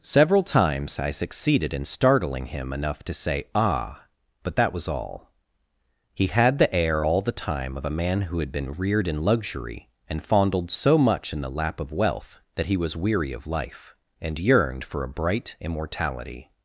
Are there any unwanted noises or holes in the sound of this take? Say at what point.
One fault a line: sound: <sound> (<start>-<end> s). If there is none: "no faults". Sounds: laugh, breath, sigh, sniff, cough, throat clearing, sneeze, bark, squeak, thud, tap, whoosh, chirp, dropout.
no faults